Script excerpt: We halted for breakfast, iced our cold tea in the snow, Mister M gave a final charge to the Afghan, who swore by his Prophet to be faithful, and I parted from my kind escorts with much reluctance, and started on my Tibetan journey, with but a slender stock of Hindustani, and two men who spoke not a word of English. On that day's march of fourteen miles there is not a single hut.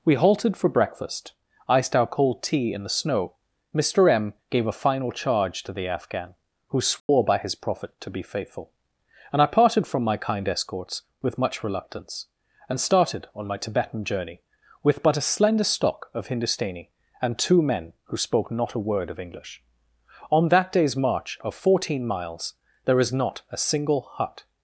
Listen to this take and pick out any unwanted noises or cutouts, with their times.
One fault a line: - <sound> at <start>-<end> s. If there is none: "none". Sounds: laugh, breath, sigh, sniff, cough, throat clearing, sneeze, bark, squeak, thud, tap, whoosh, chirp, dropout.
- dropout at 7.0-7.1 s